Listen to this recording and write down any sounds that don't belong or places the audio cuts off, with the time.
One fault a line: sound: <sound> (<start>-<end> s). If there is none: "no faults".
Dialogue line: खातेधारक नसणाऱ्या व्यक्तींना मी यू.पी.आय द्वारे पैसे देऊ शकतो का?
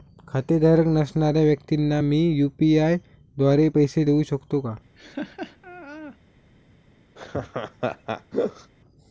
sound: laugh (4.9-6.2 s)
sound: laugh (7.2-8.7 s)